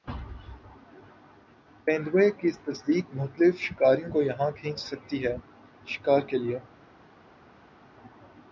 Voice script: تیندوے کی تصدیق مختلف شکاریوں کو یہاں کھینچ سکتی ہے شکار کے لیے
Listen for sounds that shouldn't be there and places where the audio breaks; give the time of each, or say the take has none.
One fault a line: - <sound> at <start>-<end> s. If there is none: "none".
none